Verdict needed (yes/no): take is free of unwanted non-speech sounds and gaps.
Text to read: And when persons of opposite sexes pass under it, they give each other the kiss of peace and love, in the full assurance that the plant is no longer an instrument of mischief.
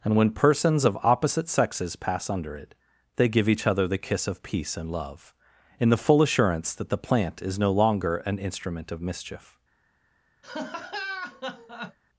no